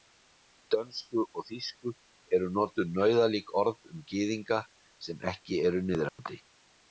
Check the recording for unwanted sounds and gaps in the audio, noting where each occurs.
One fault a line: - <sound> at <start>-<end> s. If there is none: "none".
- dropout at 6.1-6.2 s